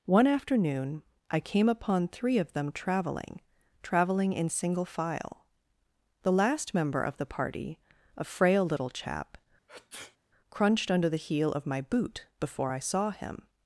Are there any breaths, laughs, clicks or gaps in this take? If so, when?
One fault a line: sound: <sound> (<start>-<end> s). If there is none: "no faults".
sound: sneeze (9.7-10.2 s)